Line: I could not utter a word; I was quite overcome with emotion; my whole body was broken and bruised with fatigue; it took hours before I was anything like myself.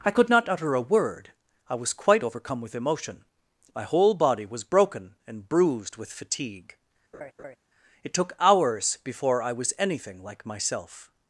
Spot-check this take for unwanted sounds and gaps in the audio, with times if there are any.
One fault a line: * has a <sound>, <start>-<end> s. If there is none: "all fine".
* has a laugh, 7.1-7.6 s